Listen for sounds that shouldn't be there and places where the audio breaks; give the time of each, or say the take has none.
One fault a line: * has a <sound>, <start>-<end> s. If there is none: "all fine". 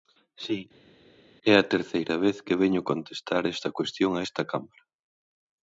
all fine